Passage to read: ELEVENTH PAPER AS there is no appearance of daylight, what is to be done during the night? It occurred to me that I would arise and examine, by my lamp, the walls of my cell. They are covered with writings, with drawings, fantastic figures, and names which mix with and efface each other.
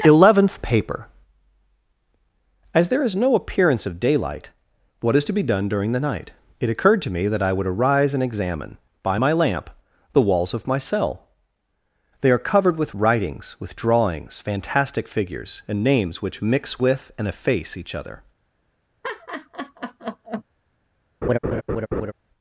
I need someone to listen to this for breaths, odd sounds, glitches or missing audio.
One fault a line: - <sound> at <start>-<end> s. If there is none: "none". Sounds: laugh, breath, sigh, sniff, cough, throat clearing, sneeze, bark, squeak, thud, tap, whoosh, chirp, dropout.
- laugh at 19.0-20.4 s
- laugh at 21.2-22.1 s